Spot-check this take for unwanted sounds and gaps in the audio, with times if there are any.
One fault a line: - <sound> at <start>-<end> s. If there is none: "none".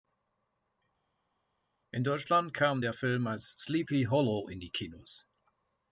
none